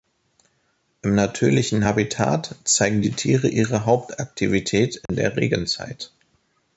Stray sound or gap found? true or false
true